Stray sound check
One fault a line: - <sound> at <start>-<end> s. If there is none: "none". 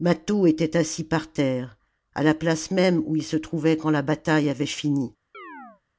- chirp at 5.3-5.8 s